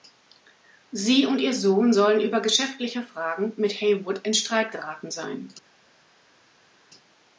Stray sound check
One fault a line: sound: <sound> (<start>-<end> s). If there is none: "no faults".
no faults